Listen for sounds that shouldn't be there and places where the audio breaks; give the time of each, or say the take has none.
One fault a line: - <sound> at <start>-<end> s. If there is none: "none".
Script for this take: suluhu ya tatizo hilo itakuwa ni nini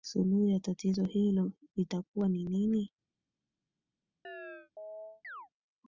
- chirp at 4.2-5.5 s